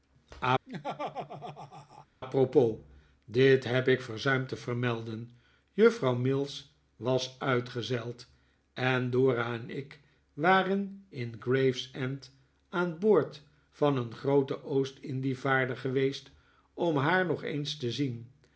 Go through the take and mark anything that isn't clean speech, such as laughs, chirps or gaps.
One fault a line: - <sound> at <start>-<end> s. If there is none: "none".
- laugh at 0.7-2.1 s